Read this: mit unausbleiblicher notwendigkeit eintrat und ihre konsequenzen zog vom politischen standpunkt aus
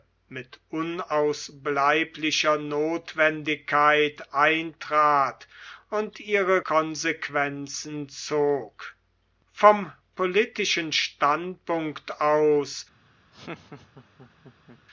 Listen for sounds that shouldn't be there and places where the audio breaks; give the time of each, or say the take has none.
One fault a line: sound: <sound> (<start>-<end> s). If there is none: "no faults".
sound: laugh (13.3-14.8 s)